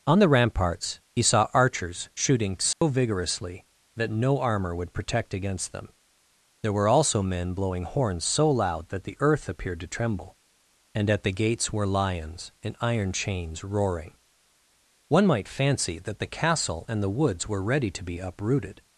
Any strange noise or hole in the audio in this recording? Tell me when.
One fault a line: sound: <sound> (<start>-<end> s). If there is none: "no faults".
sound: dropout (2.7-2.8 s)